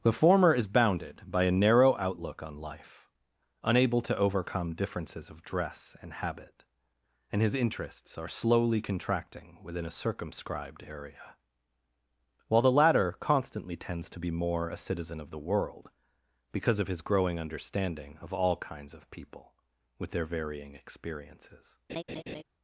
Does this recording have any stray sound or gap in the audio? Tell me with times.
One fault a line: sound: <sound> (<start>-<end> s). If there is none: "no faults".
sound: laugh (21.9-22.4 s)